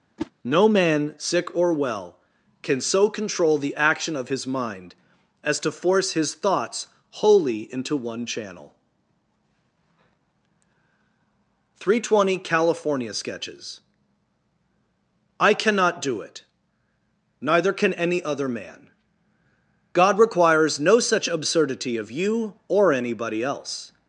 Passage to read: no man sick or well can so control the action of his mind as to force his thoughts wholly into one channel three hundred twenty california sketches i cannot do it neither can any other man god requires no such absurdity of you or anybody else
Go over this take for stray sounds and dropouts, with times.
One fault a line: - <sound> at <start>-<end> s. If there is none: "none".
- whoosh at 0.2-0.3 s